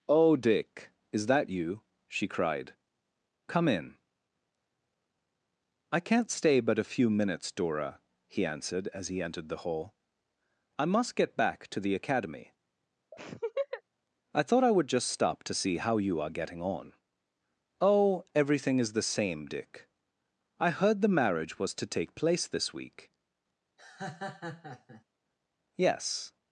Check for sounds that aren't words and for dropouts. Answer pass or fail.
fail